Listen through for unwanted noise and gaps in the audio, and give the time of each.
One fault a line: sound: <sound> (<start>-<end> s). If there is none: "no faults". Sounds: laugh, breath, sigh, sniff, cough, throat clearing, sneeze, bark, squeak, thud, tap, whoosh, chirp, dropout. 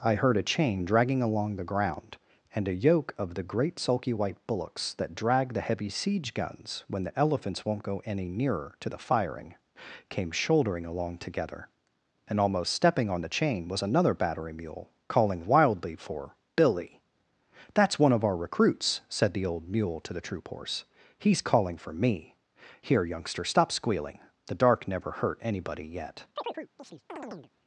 sound: chirp (26.4-27.5 s)